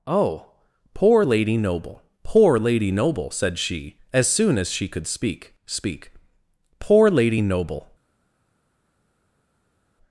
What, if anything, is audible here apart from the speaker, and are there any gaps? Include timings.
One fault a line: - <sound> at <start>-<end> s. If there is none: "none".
none